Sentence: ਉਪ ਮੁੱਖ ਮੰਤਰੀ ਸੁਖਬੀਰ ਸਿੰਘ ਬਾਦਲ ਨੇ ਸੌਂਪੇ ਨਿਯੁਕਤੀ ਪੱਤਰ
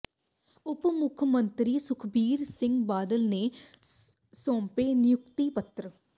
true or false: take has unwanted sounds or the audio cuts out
false